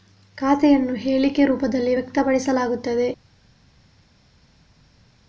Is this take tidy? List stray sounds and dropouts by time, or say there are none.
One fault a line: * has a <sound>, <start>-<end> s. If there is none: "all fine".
all fine